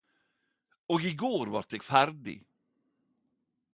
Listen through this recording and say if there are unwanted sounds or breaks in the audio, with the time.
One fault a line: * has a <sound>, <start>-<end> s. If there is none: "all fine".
all fine